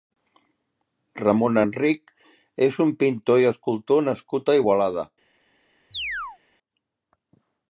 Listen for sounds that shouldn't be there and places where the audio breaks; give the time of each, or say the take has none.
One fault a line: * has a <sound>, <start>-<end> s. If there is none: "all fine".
* has a chirp, 5.9-6.4 s